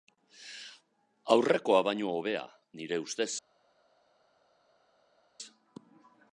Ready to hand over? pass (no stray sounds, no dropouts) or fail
pass